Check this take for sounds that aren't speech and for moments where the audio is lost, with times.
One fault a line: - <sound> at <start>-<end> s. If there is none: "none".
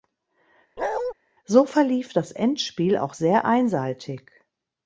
- bark at 0.8-1.1 s